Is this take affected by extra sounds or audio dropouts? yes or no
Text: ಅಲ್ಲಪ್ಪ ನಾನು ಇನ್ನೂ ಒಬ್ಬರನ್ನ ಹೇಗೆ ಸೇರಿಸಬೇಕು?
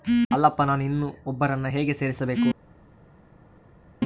no